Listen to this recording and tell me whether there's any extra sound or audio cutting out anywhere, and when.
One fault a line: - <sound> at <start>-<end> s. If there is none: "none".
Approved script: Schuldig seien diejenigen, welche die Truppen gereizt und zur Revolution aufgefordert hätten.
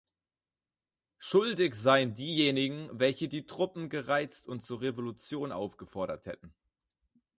none